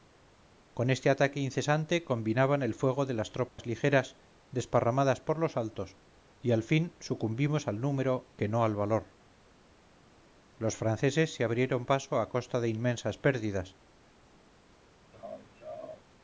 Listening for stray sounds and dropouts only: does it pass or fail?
fail